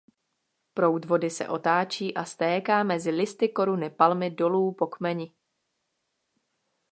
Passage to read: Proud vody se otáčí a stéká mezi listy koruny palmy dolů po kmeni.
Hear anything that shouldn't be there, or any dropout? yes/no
no